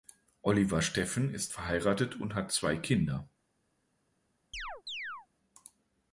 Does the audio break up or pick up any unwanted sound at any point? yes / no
yes